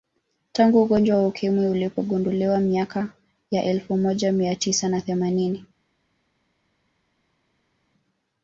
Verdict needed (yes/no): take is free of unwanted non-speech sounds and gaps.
yes